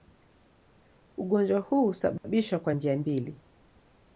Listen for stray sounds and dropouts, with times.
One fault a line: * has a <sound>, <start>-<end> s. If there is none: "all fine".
* has a dropout, 2.2-2.2 s